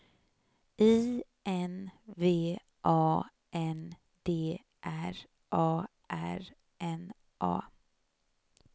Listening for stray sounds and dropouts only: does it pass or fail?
pass